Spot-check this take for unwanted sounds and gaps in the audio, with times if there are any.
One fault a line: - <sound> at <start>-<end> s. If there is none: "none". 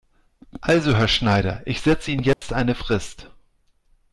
- dropout at 2.3-2.4 s